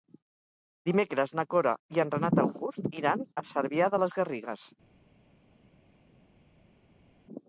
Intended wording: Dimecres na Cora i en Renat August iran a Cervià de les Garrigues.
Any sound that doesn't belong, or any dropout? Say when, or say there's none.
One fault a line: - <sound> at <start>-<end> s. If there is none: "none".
none